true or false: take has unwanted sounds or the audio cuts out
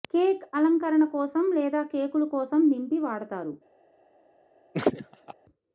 true